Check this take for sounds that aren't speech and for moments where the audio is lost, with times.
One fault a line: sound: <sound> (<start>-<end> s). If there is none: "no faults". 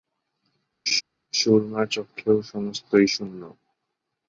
sound: laugh (0.9-1.0 s)